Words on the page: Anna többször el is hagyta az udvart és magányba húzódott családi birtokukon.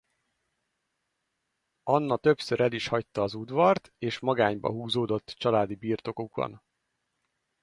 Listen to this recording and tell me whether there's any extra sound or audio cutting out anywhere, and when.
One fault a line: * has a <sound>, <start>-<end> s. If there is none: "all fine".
all fine